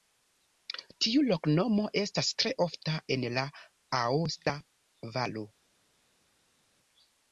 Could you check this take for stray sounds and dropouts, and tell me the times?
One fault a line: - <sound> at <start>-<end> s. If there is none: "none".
none